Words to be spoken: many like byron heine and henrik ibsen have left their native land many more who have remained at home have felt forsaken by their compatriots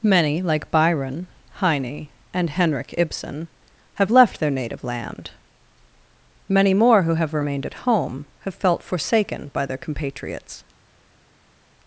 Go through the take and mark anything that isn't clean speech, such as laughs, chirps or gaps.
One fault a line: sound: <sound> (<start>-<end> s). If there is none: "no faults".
no faults